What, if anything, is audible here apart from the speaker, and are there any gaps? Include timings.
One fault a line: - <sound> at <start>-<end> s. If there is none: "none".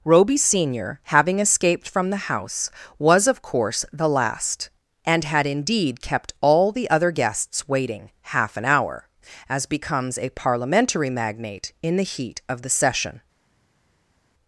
none